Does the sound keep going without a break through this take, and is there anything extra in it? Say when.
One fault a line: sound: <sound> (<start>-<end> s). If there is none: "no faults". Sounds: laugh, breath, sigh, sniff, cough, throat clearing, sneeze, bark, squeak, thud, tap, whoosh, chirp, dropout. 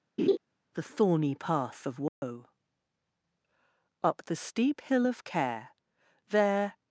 sound: laugh (0.2-0.4 s)
sound: dropout (2.1-2.2 s)